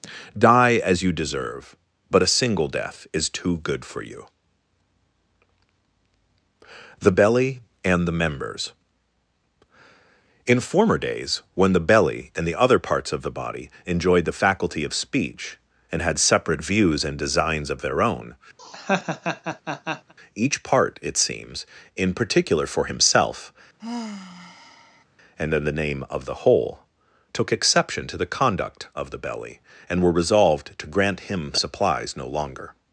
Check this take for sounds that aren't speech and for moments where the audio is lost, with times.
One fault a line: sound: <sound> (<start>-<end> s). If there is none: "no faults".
sound: laugh (18.6-20.1 s)
sound: sigh (23.8-25.0 s)